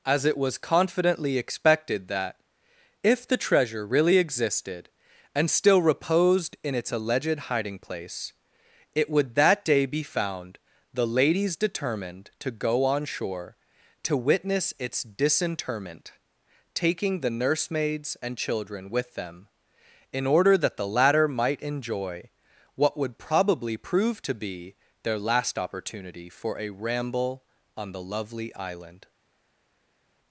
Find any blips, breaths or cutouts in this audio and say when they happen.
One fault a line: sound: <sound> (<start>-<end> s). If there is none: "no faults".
no faults